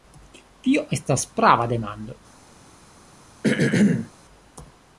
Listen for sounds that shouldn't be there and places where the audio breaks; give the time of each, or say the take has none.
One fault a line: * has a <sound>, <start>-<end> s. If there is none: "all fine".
* has a throat clearing, 3.4-4.1 s